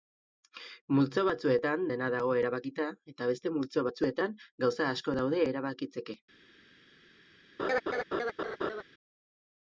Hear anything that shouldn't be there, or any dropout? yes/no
yes